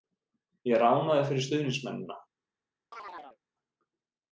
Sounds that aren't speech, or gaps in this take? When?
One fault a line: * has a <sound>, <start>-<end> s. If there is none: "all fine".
* has a chirp, 2.9-3.4 s